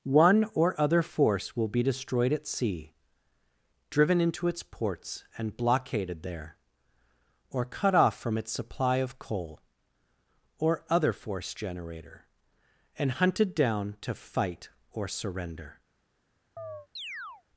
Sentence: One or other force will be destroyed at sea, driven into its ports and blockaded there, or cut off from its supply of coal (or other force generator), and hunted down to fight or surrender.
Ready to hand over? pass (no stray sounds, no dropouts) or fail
fail